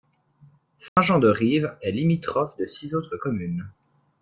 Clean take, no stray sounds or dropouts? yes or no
no